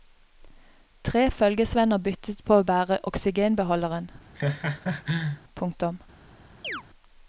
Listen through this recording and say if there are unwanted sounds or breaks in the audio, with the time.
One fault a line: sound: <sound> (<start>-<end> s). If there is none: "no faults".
sound: laugh (4.3-5.4 s)
sound: chirp (6.6-6.8 s)